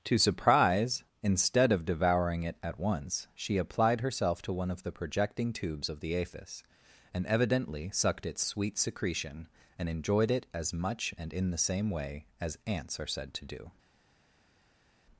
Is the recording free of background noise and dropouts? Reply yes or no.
yes